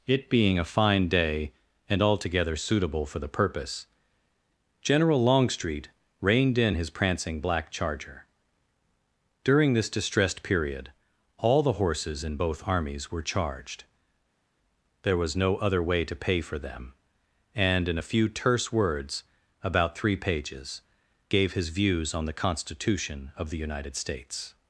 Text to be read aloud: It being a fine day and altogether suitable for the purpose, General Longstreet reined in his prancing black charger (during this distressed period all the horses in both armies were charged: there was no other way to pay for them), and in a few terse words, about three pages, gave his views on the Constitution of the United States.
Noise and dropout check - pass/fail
pass